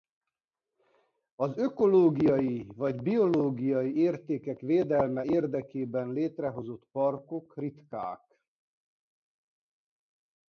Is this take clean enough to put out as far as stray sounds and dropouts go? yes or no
yes